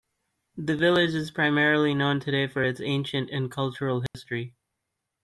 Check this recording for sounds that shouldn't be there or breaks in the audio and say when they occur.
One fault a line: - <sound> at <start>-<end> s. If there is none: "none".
- dropout at 4.1-4.1 s